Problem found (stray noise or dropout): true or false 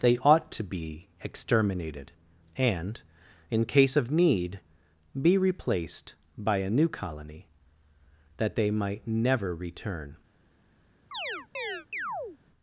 true